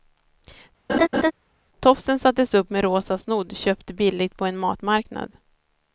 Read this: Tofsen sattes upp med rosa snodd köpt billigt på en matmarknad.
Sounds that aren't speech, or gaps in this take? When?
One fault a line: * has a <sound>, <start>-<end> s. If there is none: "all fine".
* has a laugh, 0.9-1.3 s